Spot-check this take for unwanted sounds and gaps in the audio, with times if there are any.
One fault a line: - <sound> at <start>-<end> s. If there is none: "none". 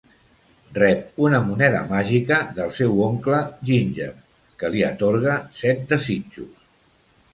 none